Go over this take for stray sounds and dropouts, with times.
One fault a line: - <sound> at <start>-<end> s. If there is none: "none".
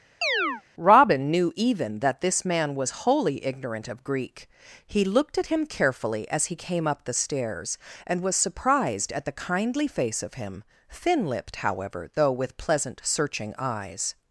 - chirp at 0.2-0.6 s